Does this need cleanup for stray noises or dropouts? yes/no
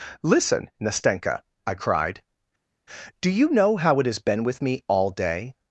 no